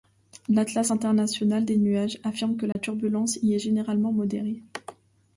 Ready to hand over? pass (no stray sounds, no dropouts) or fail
fail